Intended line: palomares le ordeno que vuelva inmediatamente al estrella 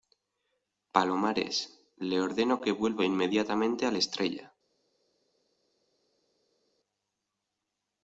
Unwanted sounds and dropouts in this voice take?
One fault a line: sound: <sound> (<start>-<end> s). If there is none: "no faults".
no faults